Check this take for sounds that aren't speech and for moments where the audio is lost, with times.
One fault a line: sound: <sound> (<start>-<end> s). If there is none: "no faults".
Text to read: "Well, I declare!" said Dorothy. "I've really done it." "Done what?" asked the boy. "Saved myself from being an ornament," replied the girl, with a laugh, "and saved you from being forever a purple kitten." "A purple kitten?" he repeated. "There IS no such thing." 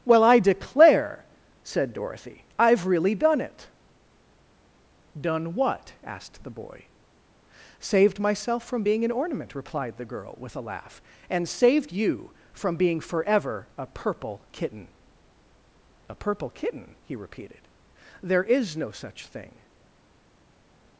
no faults